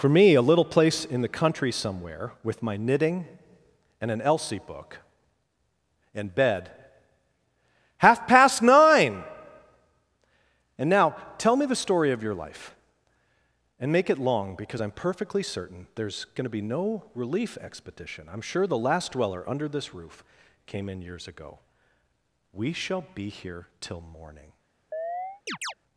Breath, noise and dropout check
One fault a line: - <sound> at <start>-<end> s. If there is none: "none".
- chirp at 24.9-25.7 s